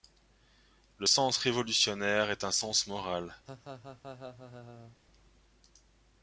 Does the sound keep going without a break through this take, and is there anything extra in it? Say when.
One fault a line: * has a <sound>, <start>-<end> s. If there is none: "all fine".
* has a laugh, 3.5-5.0 s